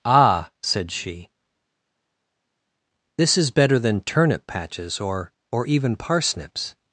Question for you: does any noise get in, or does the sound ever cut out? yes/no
no